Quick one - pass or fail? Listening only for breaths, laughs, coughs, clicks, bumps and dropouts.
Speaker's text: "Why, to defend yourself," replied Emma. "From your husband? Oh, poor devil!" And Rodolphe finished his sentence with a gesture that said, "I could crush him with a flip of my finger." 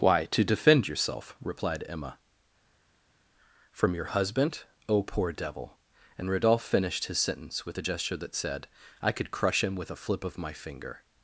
pass